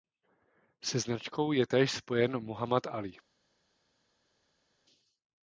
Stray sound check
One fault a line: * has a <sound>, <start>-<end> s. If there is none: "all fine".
all fine